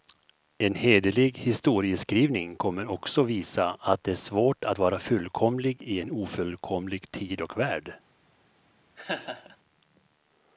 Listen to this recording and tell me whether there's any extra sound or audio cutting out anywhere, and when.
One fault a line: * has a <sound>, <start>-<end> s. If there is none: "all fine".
* has a laugh, 9.0-9.6 s